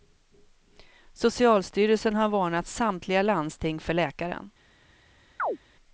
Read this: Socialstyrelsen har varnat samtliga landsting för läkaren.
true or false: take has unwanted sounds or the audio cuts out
true